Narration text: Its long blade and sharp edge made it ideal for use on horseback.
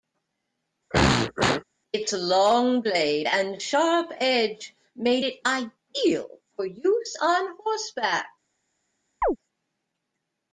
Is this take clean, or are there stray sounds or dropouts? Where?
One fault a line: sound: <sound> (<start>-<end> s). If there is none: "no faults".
sound: throat clearing (0.9-1.6 s)
sound: chirp (9.2-9.4 s)